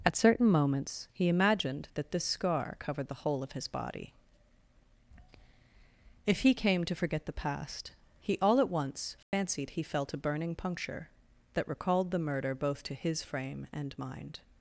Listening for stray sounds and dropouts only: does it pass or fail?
fail